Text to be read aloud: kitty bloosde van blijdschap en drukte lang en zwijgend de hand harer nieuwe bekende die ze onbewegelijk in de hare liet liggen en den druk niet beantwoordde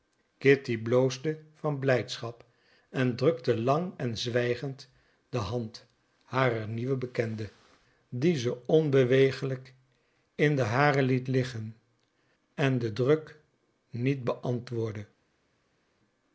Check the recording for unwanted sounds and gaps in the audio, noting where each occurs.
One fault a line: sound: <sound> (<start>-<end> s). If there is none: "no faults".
no faults